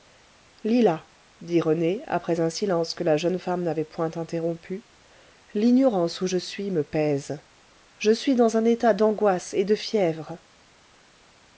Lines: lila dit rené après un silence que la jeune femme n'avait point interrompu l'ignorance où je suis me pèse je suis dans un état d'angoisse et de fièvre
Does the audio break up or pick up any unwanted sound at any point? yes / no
no